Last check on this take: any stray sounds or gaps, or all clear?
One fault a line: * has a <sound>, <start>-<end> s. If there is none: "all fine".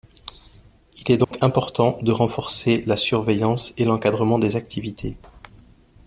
* has a dropout, 1.2-1.3 s